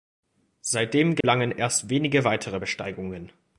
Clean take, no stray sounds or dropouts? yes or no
no